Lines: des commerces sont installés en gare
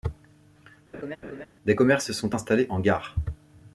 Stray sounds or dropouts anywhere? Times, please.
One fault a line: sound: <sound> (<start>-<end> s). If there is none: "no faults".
sound: laugh (0.9-1.5 s)